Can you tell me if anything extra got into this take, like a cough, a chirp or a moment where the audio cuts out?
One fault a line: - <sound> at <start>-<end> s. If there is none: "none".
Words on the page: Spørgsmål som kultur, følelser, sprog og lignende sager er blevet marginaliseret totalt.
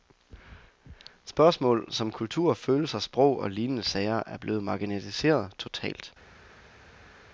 none